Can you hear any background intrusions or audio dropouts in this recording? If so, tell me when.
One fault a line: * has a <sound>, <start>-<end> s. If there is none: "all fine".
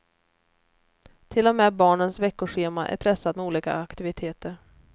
all fine